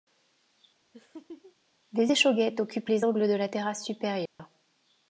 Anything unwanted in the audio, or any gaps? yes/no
yes